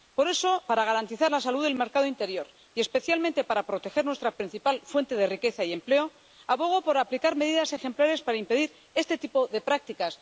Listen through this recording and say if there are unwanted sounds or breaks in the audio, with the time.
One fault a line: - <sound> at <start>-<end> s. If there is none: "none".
none